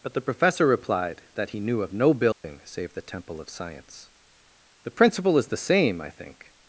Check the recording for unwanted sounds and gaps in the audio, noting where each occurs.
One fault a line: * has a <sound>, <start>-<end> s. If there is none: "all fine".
* has a dropout, 2.3-2.4 s